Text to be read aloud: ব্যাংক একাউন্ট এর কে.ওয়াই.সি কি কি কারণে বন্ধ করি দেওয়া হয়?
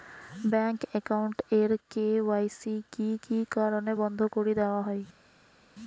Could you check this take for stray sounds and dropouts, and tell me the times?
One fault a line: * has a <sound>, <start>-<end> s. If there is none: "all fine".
all fine